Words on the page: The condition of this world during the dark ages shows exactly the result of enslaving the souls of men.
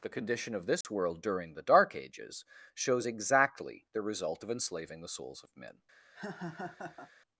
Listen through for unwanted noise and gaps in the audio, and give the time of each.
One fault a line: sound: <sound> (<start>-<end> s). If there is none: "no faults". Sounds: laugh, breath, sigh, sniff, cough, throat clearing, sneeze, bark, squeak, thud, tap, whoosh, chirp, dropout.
sound: dropout (0.8-0.8 s)
sound: laugh (6.1-7.1 s)